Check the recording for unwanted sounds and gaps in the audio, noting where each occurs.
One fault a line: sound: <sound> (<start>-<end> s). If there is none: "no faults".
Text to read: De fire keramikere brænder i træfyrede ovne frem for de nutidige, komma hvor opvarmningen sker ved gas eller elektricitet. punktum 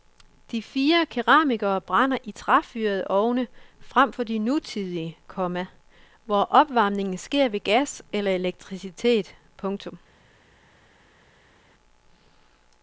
no faults